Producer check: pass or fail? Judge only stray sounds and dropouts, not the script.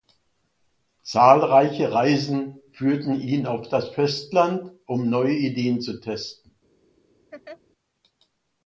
fail